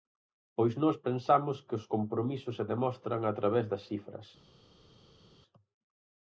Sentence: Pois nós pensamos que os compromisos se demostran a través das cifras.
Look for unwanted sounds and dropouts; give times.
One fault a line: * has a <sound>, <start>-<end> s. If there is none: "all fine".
all fine